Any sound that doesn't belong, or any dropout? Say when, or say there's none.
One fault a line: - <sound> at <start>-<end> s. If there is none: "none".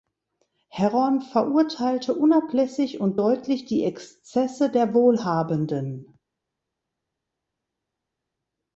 none